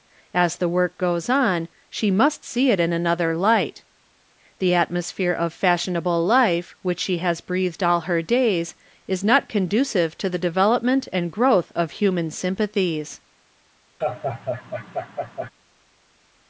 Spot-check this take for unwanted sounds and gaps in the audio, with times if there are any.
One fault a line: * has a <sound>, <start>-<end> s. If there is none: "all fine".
* has a laugh, 14.0-15.5 s